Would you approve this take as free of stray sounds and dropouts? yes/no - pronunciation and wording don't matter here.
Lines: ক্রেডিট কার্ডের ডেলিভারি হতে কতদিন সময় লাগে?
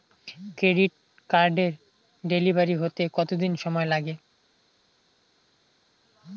yes